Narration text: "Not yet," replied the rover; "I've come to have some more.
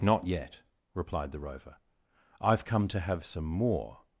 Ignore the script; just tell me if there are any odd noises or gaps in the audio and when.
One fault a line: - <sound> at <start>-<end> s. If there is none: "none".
none